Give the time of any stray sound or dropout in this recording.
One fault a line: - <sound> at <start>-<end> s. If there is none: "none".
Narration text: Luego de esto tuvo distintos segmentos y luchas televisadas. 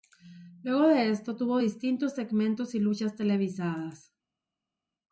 none